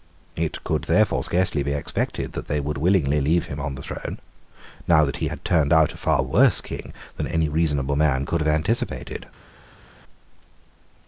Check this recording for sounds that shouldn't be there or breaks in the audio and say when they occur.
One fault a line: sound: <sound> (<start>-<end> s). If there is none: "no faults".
no faults